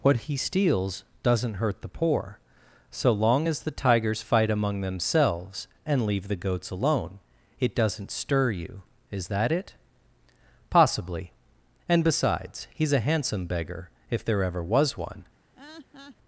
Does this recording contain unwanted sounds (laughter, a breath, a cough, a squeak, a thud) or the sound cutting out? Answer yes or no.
yes